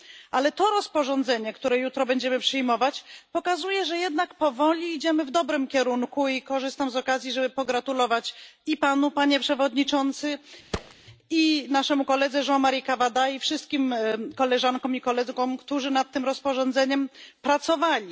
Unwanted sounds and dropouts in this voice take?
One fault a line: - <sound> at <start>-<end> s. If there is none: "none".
- thud at 10.7-10.9 s